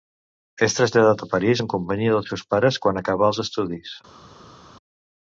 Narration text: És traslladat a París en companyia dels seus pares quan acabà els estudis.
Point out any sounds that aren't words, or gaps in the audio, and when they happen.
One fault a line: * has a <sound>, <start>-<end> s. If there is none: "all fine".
all fine